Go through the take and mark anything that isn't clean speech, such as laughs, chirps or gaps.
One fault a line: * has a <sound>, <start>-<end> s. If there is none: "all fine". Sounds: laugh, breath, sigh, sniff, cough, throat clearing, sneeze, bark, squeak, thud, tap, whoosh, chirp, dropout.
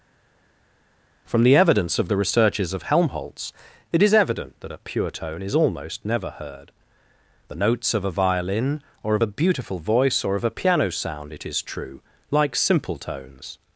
all fine